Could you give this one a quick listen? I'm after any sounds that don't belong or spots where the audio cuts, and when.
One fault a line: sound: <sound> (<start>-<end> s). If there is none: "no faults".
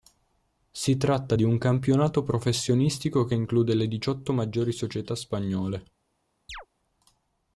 sound: chirp (6.5-6.7 s)